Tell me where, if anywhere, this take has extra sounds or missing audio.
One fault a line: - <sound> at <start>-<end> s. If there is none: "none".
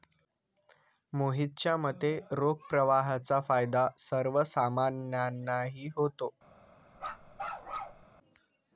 - bark at 7.0-8.0 s